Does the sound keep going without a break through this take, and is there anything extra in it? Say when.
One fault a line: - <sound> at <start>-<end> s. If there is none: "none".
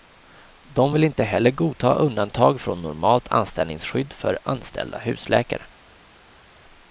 none